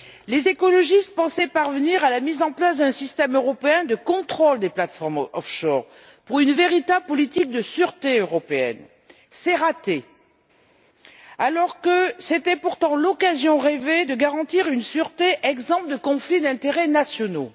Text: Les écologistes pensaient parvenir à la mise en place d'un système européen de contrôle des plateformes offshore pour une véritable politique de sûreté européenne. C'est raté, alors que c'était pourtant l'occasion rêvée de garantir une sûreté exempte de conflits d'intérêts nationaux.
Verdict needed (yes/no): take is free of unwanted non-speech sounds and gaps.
yes